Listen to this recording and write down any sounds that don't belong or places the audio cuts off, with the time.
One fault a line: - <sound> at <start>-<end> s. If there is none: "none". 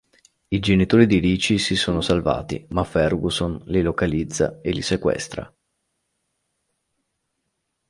none